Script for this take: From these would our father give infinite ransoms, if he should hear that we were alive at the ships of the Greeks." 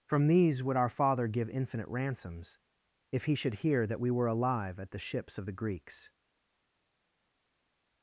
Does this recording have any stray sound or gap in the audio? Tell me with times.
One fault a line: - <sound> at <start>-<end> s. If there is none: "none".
none